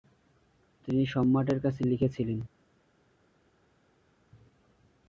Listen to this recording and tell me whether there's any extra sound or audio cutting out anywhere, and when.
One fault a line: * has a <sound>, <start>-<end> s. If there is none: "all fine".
all fine